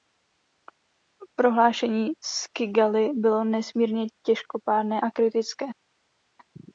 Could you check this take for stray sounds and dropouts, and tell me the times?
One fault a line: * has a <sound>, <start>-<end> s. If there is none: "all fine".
all fine